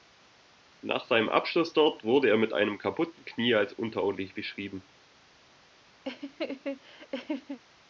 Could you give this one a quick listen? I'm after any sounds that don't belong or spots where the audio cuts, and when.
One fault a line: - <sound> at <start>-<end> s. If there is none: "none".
- laugh at 6.0-7.6 s